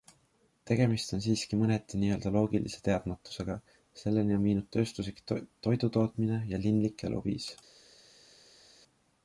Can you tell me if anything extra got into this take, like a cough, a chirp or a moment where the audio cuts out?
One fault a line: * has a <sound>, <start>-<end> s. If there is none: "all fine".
all fine